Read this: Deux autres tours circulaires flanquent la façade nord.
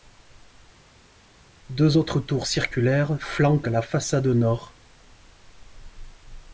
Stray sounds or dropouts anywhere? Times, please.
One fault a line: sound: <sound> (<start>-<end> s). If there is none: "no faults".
no faults